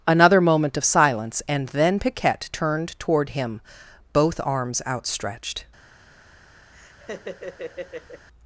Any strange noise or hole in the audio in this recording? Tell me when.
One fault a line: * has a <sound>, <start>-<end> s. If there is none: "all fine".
* has a laugh, 6.7-8.3 s